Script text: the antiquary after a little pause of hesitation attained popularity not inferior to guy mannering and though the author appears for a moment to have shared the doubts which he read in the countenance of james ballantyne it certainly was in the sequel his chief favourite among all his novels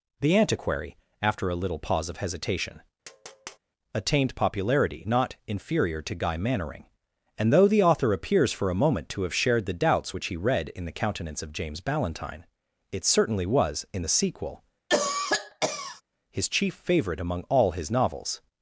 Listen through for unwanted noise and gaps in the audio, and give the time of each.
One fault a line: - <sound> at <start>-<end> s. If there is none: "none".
- tap at 3.0-3.6 s
- cough at 14.9-16.0 s